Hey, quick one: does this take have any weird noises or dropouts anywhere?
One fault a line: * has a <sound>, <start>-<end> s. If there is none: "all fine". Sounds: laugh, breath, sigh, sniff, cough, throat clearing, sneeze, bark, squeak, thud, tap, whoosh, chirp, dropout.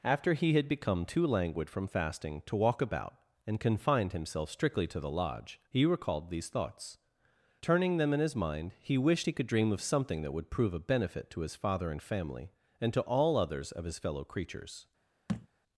* has a thud, 15.3-15.5 s